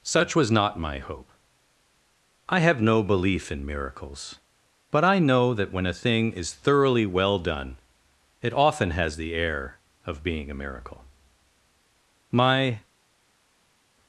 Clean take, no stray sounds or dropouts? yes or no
yes